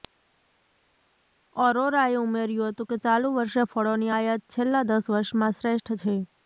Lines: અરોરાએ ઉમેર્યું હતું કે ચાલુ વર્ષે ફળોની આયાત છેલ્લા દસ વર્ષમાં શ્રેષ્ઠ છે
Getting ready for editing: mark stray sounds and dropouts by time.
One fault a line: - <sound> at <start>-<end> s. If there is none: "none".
none